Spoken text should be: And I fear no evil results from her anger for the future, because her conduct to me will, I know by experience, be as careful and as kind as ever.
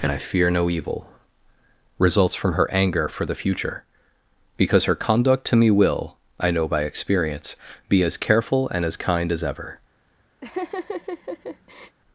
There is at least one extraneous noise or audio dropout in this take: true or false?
true